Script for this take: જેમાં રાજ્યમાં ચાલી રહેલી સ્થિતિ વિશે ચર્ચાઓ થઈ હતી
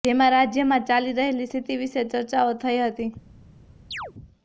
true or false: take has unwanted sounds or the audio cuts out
true